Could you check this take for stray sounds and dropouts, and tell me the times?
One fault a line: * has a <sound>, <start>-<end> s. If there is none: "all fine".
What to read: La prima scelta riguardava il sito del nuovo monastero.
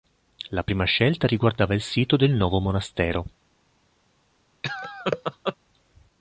* has a laugh, 4.6-5.6 s